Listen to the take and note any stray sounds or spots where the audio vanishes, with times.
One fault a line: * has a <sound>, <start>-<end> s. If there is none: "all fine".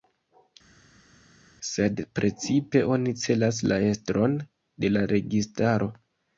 all fine